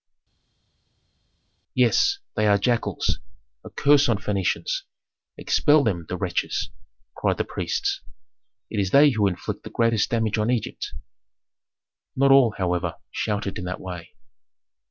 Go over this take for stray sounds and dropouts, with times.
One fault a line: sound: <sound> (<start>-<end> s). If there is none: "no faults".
no faults